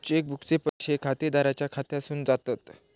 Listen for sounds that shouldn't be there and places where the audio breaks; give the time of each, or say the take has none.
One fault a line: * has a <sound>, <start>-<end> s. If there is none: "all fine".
* has a dropout, 0.7-0.8 s